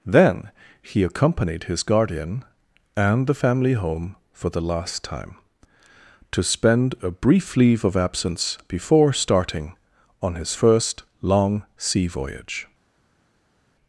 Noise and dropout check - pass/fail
pass